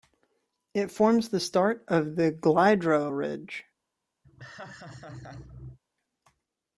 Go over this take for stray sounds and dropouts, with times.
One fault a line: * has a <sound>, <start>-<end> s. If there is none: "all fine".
* has a laugh, 4.2-5.8 s